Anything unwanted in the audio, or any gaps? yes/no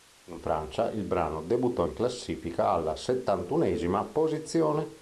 no